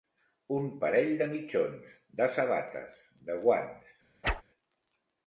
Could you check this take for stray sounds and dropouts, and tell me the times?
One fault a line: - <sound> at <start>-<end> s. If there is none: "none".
- whoosh at 4.2-4.4 s